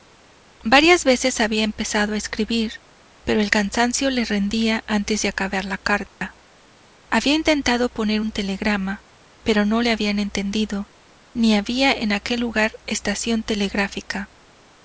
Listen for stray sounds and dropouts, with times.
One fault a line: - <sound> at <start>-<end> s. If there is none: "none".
- dropout at 6.1-6.2 s